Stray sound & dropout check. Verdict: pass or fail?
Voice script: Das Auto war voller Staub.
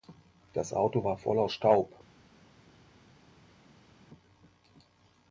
pass